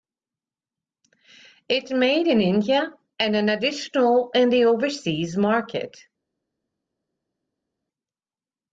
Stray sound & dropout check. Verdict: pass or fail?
pass